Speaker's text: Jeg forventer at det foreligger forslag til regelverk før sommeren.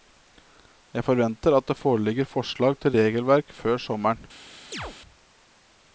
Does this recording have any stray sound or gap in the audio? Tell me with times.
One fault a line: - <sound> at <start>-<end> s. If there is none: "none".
- chirp at 4.7-5.0 s